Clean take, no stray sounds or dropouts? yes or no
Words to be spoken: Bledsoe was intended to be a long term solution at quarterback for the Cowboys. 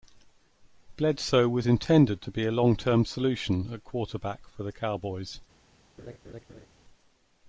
no